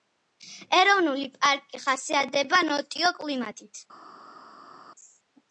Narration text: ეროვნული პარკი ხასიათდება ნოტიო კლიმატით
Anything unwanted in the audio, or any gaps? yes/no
no